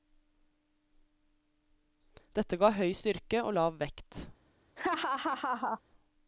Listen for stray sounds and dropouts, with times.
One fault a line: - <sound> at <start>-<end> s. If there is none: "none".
- laugh at 4.8-5.8 s